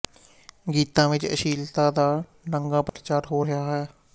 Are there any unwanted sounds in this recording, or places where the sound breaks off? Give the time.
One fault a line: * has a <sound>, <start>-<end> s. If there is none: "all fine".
* has a dropout, 2.9-2.9 s